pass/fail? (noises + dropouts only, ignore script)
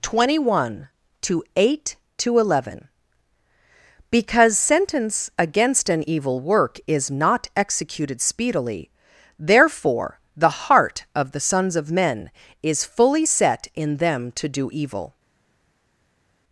pass